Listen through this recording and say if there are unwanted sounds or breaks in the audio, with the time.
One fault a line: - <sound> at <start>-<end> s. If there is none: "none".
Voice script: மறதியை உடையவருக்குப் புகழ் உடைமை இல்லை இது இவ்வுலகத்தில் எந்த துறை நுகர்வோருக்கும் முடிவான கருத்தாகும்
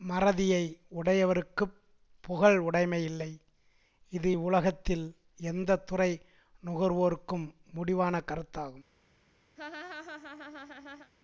- laugh at 9.6-11.1 s